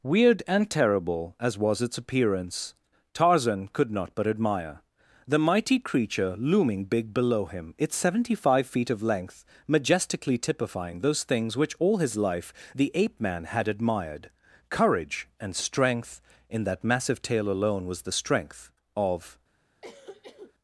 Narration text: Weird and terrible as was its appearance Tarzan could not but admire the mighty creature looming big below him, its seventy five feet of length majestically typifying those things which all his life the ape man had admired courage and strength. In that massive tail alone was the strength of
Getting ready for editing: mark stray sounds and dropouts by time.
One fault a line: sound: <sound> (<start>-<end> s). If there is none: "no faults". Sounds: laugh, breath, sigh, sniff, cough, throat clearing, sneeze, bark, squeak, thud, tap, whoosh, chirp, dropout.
sound: cough (19.8-20.5 s)